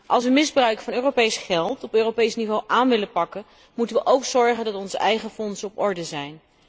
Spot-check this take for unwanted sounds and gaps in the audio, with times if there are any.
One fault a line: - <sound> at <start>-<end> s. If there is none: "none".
none